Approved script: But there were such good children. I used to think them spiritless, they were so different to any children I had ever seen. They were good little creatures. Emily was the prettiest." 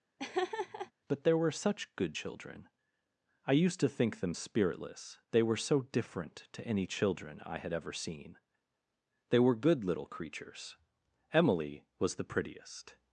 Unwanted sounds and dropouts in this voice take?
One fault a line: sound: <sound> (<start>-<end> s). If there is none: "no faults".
sound: laugh (0.2-0.9 s)